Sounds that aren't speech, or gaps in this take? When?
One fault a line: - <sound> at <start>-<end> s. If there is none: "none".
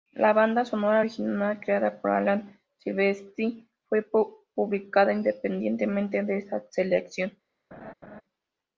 - laugh at 7.7-8.2 s